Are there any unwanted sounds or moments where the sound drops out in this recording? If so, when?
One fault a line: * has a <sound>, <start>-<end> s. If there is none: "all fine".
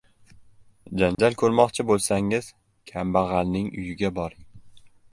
* has a dropout, 1.1-1.2 s